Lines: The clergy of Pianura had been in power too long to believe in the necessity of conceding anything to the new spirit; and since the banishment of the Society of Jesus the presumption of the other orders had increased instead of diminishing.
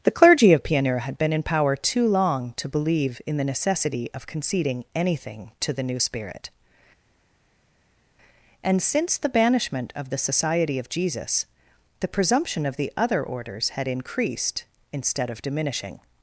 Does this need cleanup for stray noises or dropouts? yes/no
no